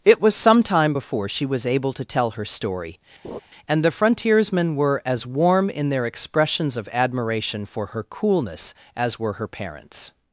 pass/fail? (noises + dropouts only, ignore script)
fail